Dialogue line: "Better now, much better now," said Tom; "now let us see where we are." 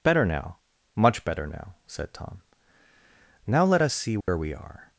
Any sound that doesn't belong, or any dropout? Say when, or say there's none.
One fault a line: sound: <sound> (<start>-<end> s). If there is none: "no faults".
sound: dropout (4.2-4.3 s)